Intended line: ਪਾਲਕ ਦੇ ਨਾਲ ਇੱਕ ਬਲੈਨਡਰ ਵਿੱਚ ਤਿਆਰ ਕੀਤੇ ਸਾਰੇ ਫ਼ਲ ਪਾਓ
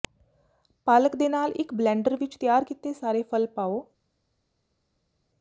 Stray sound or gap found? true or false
false